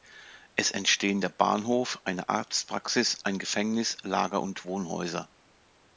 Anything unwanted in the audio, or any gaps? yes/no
no